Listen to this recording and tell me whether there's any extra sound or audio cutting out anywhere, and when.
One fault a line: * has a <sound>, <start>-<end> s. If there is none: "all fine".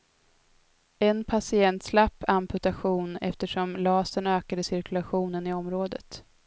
all fine